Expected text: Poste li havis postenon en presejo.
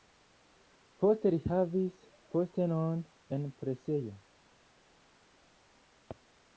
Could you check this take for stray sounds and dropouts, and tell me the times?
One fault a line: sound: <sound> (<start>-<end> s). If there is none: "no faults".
no faults